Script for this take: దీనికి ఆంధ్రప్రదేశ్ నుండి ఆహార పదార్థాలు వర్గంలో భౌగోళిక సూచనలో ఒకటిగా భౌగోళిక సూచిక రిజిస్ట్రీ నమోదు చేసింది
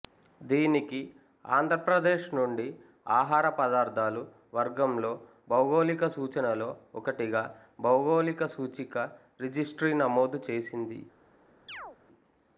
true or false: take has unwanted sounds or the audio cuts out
true